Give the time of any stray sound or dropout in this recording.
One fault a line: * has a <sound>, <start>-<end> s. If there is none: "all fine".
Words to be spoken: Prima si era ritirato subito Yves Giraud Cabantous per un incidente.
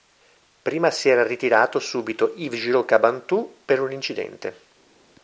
all fine